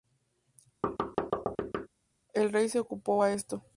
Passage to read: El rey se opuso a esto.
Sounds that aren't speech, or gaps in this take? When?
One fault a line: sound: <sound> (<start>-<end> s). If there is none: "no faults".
sound: thud (0.8-1.9 s)